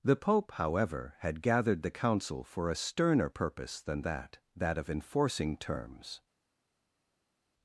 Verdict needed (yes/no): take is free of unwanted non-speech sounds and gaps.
yes